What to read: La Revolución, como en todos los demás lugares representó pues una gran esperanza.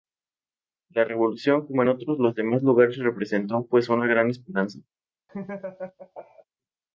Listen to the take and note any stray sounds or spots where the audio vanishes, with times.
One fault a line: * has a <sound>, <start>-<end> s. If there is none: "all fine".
* has a laugh, 5.3-6.4 s